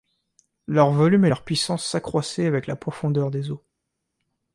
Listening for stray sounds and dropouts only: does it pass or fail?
pass